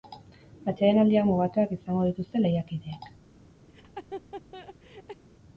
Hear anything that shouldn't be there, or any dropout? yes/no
yes